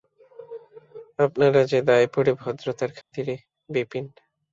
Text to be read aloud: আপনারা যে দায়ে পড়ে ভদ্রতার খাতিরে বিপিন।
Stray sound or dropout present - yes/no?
yes